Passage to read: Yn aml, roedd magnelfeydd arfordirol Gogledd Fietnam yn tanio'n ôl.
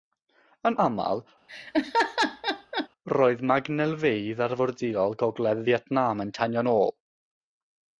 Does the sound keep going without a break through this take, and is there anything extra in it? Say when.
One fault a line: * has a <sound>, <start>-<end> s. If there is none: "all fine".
* has a laugh, 1.5-2.9 s